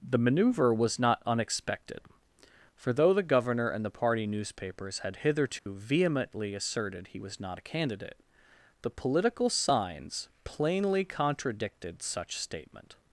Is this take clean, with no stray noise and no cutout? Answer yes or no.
no